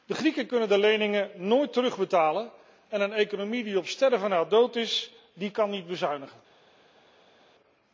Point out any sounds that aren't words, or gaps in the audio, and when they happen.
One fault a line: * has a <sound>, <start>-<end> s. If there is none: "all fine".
all fine